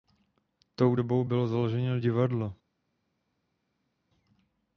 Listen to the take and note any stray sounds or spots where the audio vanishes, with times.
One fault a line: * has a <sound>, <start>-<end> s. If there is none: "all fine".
all fine